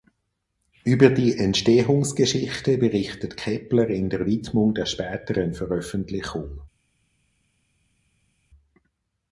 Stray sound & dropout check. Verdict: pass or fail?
pass